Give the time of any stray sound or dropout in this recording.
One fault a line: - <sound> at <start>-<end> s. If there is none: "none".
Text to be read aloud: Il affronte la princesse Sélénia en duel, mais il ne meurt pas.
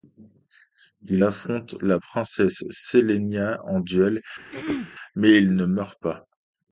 - throat clearing at 4.5-4.9 s